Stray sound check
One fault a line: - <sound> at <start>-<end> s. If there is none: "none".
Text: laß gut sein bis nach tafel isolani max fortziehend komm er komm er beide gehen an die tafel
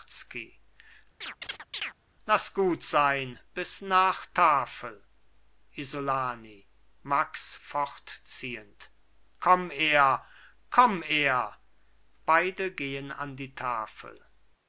- chirp at 1.2-2.0 s